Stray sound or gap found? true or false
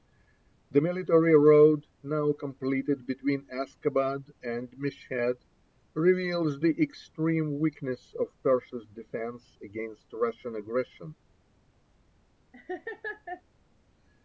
true